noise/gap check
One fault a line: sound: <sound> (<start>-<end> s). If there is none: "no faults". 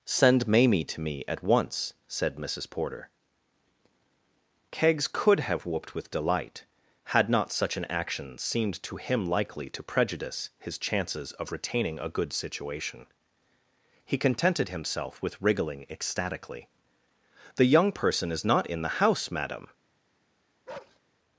sound: bark (20.7-21.0 s)